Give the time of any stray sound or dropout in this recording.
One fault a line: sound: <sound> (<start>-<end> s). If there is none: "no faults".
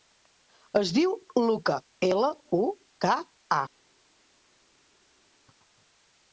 no faults